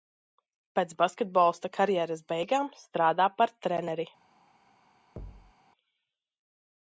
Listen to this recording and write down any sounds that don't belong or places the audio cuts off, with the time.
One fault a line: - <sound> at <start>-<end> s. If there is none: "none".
- thud at 5.2-5.5 s